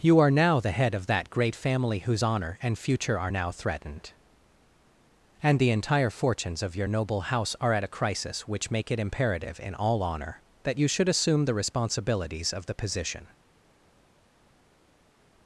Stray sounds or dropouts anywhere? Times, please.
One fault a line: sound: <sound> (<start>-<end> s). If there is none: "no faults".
no faults